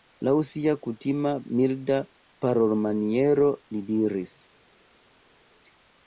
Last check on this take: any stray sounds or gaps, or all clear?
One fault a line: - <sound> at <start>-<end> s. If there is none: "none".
none